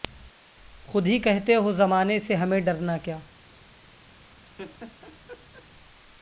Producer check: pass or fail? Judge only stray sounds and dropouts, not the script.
fail